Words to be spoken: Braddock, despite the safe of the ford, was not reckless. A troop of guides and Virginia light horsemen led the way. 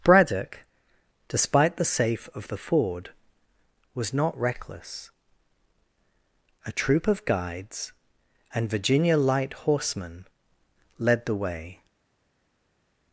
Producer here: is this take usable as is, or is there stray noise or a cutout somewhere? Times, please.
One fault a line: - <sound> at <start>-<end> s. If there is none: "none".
none